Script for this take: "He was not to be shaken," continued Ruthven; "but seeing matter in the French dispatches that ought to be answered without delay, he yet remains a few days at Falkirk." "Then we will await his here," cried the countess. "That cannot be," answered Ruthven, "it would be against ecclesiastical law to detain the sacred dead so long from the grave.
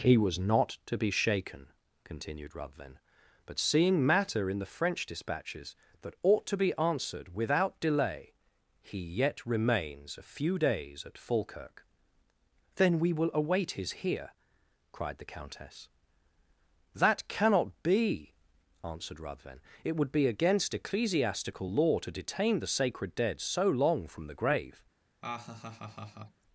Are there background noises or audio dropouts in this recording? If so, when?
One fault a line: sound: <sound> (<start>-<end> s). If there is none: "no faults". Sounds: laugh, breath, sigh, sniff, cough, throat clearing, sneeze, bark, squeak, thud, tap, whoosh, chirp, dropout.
sound: laugh (25.2-26.4 s)